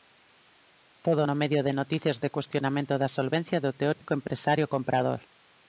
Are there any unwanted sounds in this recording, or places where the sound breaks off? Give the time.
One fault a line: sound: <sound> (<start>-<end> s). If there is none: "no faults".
sound: dropout (3.9-4.0 s)